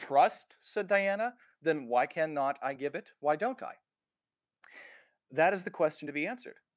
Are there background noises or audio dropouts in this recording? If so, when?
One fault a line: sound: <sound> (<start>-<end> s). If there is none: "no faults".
no faults